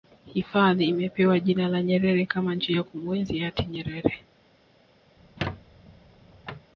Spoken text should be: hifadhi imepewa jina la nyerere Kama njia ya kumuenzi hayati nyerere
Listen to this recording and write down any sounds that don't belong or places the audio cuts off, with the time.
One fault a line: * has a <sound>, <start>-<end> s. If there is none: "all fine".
* has a squeak, 5.2-6.7 s